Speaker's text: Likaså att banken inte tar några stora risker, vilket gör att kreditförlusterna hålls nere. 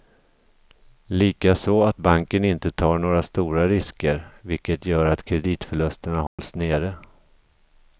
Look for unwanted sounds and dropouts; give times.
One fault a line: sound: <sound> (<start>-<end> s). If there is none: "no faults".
sound: dropout (6.3-6.4 s)